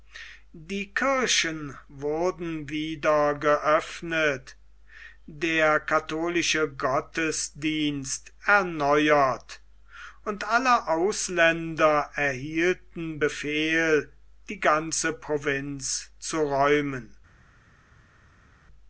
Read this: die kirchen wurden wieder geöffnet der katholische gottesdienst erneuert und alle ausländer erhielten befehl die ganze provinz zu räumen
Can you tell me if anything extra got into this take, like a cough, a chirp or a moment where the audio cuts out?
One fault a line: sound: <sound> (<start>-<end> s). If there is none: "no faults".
no faults